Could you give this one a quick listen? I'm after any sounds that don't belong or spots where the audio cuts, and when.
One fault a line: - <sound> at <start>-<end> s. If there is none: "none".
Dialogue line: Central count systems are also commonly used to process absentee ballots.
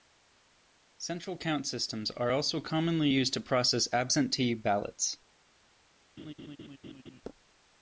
- laugh at 6.2-7.2 s